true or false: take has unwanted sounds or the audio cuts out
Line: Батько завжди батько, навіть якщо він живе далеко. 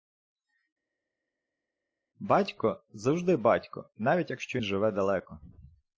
false